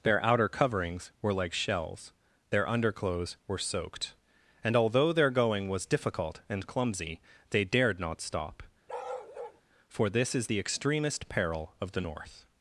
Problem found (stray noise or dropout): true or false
true